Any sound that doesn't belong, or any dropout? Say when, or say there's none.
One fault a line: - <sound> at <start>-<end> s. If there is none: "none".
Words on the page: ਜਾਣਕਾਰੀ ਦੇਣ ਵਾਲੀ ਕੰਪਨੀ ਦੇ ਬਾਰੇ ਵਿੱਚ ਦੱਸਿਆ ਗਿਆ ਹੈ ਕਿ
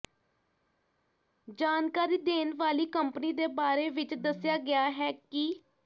none